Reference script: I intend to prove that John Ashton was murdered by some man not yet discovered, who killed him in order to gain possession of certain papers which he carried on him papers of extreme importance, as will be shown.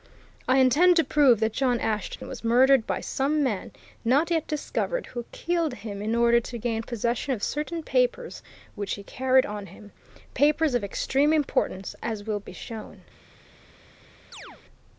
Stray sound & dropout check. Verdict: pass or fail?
fail